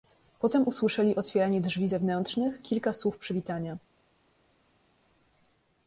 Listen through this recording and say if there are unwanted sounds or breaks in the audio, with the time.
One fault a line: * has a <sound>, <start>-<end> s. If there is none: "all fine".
all fine